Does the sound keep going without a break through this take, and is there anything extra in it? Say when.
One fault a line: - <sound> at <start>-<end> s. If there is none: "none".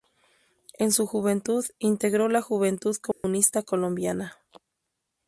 - dropout at 3.1-3.2 s